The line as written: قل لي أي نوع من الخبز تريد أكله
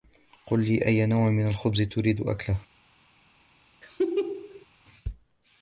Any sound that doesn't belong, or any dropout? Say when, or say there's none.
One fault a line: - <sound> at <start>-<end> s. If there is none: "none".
- laugh at 3.8-4.7 s